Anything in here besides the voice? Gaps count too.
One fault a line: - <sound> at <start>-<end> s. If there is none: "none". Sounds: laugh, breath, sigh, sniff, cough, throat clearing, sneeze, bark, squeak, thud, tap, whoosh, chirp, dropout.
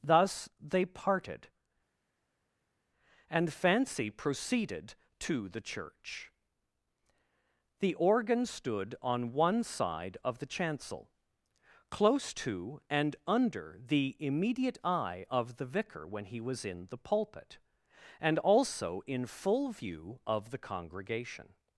none